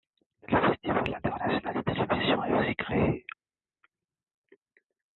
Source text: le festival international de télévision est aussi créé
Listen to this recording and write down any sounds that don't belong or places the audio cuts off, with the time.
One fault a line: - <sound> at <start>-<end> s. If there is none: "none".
none